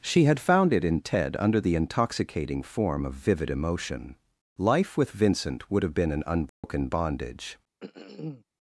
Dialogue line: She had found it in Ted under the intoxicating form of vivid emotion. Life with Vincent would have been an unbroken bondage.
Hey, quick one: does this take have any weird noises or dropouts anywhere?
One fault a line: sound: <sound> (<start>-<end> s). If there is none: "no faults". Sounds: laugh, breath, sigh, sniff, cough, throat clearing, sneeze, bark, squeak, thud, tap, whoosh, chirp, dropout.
sound: dropout (6.5-6.6 s)
sound: throat clearing (7.8-8.4 s)